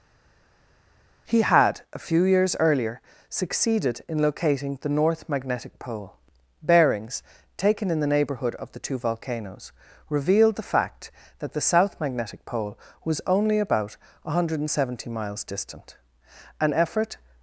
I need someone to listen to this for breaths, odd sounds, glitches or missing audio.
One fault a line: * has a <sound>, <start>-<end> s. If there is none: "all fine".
all fine